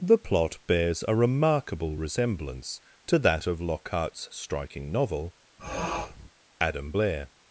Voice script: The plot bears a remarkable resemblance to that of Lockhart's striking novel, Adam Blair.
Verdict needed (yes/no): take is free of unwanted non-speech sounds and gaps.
no